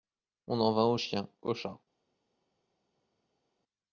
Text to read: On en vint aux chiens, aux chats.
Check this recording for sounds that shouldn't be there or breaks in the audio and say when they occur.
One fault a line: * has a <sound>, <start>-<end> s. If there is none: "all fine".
all fine